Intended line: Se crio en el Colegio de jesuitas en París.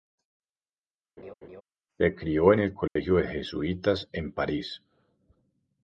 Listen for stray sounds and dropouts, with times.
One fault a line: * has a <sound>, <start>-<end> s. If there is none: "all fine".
* has a laugh, 1.2-1.6 s
* has a dropout, 2.9-3.0 s